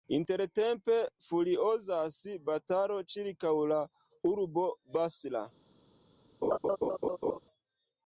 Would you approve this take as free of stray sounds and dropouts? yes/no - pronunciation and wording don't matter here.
no